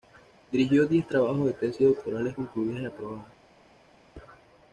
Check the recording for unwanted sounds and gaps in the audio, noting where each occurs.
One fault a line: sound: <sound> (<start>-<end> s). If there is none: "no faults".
no faults